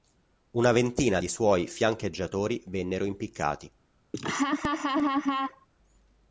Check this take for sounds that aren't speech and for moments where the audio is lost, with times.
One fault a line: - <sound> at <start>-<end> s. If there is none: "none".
- laugh at 4.1-5.7 s